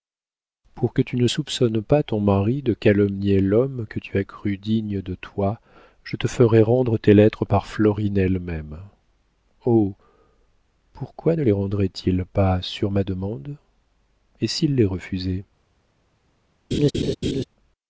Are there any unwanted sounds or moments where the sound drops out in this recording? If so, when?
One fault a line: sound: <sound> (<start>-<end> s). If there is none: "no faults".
sound: laugh (16.7-17.4 s)